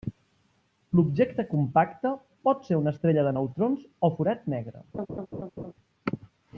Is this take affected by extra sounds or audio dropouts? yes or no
yes